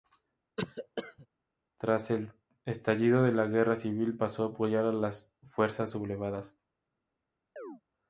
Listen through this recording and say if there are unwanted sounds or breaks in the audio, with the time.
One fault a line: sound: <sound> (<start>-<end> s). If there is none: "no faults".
sound: cough (0.6-1.3 s)
sound: chirp (7.6-7.8 s)